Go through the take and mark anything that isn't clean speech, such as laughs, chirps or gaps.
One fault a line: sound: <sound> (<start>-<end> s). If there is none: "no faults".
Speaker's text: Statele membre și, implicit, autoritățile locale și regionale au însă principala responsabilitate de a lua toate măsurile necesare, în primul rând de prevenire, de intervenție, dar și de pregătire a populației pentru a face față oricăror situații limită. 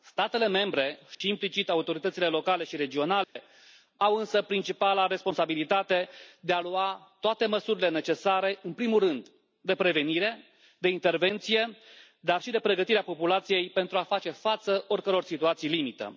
sound: dropout (1.1-1.2 s)
sound: dropout (3.2-3.4 s)